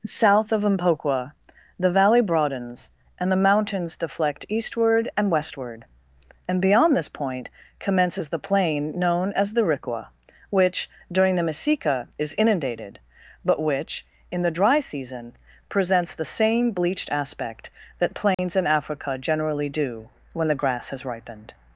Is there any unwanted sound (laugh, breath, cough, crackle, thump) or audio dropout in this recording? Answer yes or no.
yes